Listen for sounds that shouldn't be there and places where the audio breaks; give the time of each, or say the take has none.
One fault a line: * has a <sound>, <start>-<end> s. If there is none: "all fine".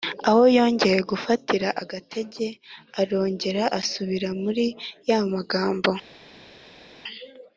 all fine